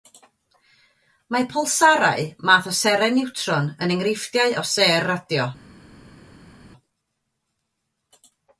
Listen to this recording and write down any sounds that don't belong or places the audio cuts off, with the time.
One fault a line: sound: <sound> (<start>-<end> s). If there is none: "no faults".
no faults